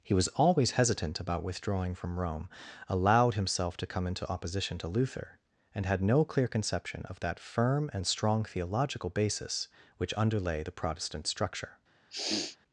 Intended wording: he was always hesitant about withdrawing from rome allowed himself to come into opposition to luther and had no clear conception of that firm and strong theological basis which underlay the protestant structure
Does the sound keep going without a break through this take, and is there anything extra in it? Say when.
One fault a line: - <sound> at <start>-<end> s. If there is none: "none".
- sniff at 12.1-12.6 s